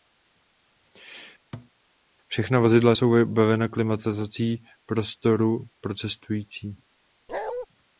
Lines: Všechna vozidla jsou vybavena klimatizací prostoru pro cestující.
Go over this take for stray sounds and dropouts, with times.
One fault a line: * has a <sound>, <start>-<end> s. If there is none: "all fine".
* has a thud, 1.5-1.7 s
* has a bark, 7.3-7.7 s